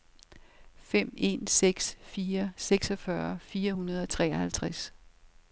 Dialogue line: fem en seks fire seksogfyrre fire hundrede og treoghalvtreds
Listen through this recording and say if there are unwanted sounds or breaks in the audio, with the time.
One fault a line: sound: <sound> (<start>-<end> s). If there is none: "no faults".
no faults